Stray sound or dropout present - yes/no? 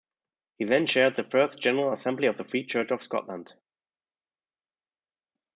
no